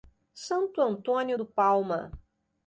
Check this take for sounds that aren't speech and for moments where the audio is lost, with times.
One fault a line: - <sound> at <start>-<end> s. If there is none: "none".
none